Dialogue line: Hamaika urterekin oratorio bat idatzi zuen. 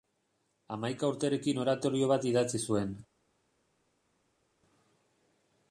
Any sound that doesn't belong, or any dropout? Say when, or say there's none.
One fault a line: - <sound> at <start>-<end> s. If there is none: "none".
none